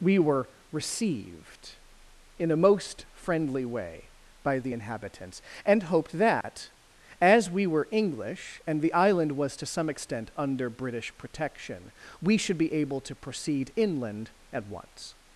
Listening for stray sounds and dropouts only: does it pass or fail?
fail